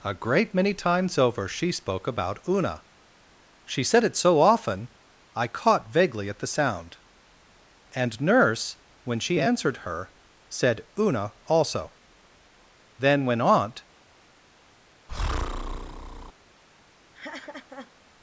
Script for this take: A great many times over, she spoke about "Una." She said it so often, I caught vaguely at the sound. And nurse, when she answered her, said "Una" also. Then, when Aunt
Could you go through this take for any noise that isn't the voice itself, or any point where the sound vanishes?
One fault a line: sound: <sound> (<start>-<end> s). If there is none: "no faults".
sound: breath (15.1-16.3 s)
sound: laugh (17.1-17.9 s)